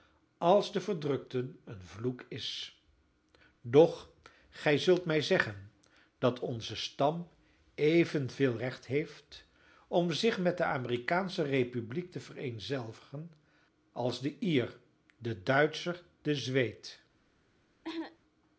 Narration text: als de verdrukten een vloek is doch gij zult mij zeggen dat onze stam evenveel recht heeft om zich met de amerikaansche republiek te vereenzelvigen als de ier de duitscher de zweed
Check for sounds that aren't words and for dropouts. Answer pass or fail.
fail